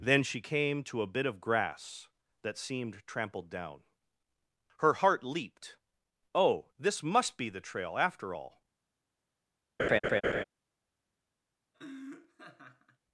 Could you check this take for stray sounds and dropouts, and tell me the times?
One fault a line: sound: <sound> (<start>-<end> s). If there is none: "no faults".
sound: laugh (9.8-10.4 s)
sound: laugh (11.7-13.0 s)